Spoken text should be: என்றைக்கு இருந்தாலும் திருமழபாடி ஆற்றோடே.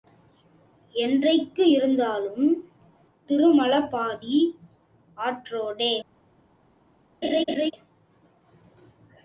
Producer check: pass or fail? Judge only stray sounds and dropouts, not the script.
fail